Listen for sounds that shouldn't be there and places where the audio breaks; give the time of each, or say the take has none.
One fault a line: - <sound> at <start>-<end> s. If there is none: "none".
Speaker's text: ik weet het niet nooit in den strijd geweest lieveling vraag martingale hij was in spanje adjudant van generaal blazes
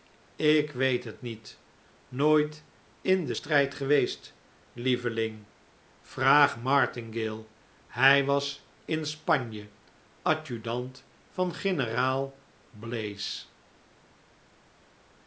none